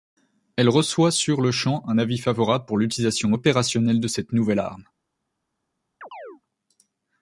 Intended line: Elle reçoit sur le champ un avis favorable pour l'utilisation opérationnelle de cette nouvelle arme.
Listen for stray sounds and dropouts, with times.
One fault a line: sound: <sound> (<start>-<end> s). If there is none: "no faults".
sound: chirp (6.0-6.4 s)